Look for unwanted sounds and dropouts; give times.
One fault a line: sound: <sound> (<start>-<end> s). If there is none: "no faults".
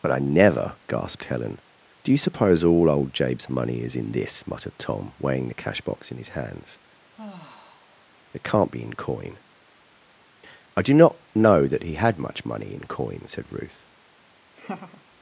sound: sigh (7.1-8.0 s)
sound: laugh (14.6-15.0 s)